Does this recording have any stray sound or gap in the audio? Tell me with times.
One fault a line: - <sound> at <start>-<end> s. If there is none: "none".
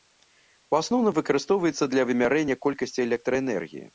none